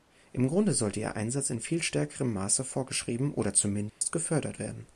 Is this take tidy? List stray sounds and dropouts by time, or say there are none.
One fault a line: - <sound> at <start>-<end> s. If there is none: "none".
- dropout at 3.9-4.0 s